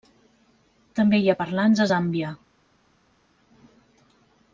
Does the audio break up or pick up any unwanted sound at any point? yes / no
no